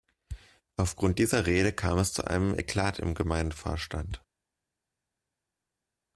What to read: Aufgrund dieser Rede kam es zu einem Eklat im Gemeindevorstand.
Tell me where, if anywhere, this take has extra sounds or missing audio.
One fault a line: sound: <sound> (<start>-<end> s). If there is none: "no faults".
no faults